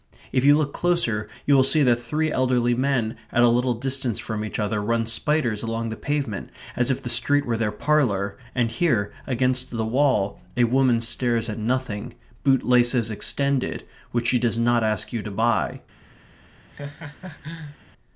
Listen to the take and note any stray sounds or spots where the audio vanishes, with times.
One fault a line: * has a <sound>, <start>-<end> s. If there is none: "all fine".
* has a laugh, 16.7-17.8 s